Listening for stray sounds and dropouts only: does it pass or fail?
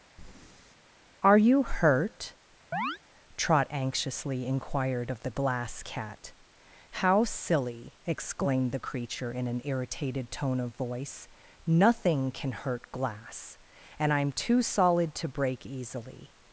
fail